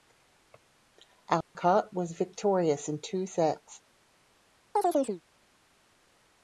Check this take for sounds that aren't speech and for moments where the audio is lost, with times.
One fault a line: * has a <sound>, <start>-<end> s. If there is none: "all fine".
* has a dropout, 1.4-1.6 s
* has a chirp, 4.7-5.2 s